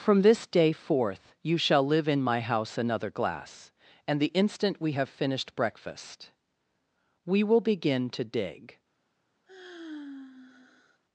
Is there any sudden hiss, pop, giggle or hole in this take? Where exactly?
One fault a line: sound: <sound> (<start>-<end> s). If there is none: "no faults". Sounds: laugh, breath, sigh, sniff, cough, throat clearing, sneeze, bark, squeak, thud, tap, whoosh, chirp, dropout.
sound: sigh (9.5-11.0 s)